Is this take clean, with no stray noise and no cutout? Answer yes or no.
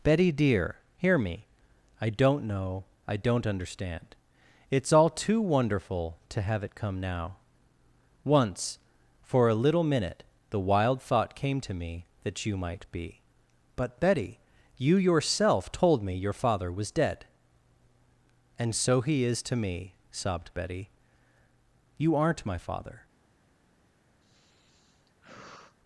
no